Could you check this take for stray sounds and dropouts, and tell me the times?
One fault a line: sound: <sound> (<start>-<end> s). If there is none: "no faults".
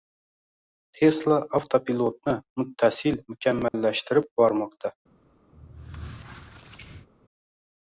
sound: dropout (3.7-3.7 s)
sound: squeak (5.5-7.1 s)